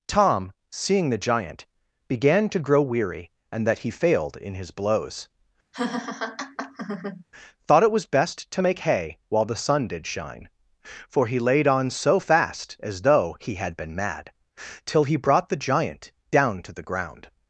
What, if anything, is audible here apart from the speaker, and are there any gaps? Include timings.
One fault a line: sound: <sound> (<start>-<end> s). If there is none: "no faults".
sound: laugh (5.7-7.2 s)